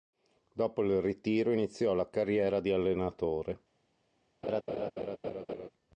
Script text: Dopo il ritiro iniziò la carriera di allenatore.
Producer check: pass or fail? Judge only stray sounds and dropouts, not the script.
fail